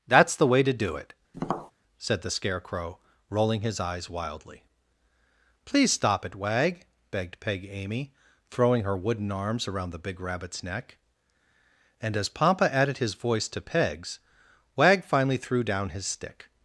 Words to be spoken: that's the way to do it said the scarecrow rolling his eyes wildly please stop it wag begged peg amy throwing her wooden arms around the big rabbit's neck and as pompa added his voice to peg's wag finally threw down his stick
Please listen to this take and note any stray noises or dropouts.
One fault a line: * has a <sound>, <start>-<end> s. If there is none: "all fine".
* has a tap, 1.3-1.7 s